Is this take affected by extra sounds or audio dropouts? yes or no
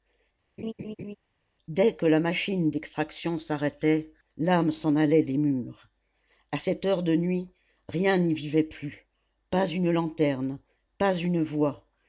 yes